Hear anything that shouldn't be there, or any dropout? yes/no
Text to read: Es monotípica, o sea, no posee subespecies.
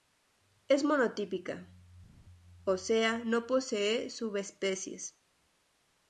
no